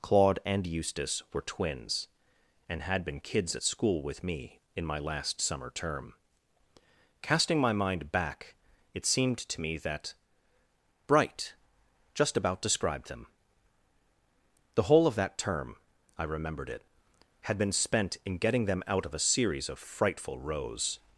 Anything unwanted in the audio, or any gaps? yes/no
no